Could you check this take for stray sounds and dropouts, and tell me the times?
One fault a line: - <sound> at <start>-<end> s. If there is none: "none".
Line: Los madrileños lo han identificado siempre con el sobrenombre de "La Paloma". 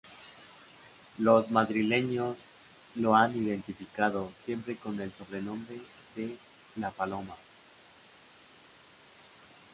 none